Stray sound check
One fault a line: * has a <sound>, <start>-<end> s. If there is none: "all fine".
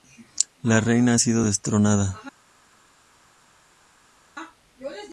all fine